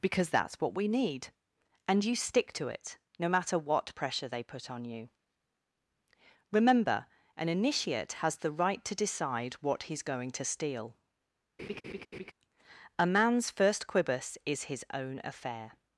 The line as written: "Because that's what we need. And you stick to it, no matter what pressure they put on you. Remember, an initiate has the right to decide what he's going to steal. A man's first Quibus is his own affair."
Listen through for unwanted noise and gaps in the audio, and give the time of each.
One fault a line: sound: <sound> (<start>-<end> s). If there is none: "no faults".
sound: laugh (11.6-12.3 s)